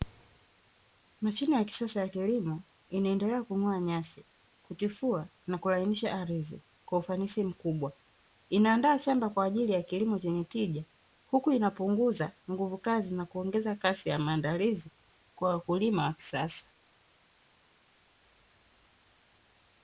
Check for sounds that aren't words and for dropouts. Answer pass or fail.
pass